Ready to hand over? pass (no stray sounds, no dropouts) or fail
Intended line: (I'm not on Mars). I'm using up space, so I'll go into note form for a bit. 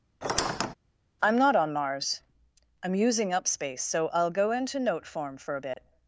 fail